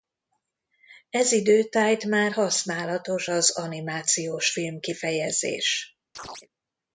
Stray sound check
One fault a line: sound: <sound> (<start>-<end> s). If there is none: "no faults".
sound: chirp (6.2-6.5 s)